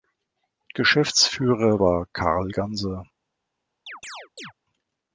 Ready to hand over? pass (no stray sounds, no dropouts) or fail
fail